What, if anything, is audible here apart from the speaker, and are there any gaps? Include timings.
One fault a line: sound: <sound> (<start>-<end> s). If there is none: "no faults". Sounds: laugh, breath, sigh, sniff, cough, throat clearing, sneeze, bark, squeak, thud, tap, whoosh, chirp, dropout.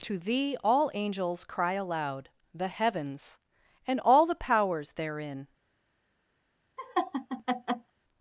sound: laugh (6.8-7.9 s)